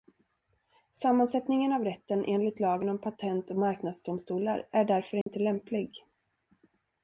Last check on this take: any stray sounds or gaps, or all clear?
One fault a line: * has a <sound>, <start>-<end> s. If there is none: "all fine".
* has a dropout, 5.2-5.3 s